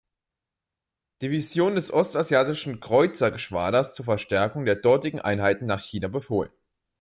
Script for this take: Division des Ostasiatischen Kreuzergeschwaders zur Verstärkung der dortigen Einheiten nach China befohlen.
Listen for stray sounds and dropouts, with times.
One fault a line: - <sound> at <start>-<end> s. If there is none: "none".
none